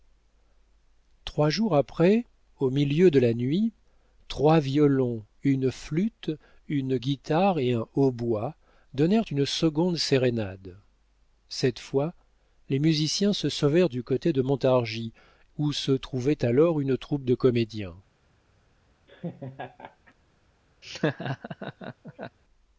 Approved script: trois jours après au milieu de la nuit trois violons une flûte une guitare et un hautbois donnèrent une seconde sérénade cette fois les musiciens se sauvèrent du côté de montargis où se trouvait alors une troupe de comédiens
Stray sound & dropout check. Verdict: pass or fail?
fail